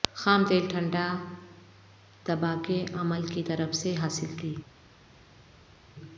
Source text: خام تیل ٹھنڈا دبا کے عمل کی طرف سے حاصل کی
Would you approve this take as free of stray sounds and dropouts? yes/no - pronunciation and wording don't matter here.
yes